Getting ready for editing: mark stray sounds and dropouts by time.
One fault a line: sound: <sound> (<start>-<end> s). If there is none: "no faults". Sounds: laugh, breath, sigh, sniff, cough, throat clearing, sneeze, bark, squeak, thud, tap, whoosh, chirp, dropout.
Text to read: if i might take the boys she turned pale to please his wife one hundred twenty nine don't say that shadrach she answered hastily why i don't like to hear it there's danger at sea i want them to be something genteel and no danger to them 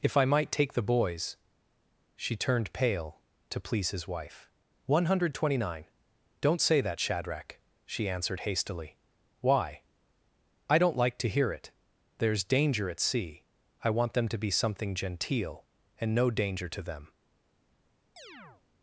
sound: chirp (18.2-18.6 s)